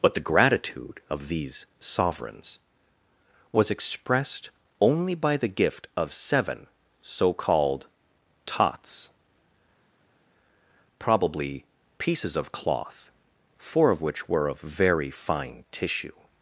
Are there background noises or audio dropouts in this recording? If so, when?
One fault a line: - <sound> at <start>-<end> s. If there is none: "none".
none